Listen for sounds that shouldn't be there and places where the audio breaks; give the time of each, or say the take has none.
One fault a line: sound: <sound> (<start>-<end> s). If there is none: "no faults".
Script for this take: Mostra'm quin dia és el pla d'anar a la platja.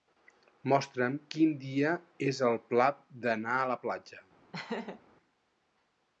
sound: laugh (4.5-5.0 s)